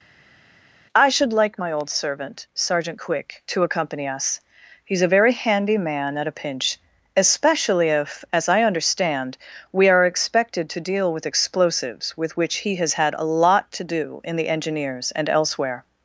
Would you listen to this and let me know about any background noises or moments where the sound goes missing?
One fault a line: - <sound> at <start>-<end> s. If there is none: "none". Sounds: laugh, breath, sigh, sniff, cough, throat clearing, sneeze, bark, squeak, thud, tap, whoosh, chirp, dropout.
none